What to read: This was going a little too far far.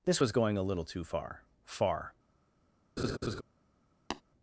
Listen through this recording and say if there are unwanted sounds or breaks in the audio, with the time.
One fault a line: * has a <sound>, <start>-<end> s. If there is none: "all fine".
* has a laugh, 3.0-3.4 s
* has a tap, 4.1-4.2 s